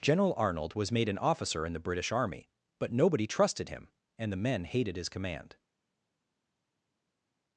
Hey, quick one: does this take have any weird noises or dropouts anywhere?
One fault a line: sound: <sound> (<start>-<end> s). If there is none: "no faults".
no faults